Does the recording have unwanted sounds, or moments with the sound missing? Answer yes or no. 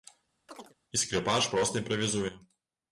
yes